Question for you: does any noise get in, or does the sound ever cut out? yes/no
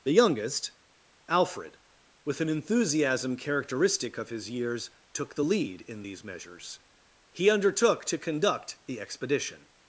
no